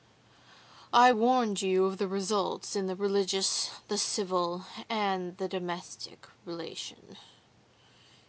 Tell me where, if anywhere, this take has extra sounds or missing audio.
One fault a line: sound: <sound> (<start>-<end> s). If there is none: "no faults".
no faults